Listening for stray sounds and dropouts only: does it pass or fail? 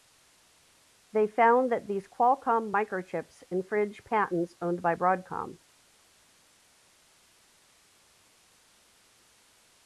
pass